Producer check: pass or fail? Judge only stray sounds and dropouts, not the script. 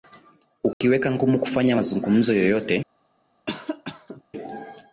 fail